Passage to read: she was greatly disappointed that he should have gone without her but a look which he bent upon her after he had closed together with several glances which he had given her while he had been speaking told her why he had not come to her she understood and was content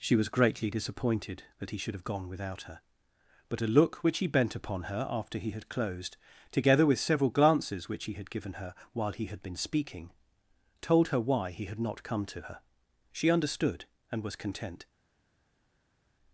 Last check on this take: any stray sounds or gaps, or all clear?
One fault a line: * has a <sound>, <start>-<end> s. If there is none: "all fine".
all fine